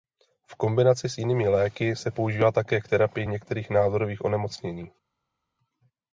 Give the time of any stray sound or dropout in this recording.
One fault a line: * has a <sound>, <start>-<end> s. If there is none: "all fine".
all fine